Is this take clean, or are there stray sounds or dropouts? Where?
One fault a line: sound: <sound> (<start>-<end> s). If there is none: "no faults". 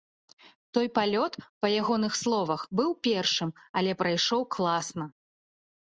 no faults